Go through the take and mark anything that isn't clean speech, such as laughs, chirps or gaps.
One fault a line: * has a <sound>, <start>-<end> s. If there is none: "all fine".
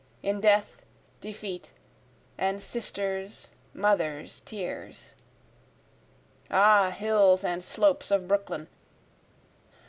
all fine